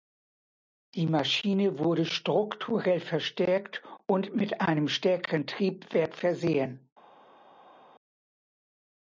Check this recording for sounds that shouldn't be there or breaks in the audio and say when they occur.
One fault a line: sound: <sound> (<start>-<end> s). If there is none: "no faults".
no faults